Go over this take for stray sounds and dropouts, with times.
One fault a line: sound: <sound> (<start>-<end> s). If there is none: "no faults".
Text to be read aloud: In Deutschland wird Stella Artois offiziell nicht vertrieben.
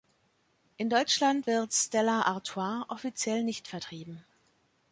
no faults